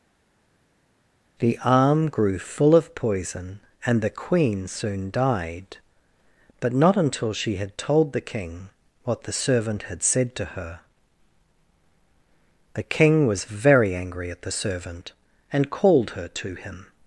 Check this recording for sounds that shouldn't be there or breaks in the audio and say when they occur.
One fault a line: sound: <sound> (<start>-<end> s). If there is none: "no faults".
no faults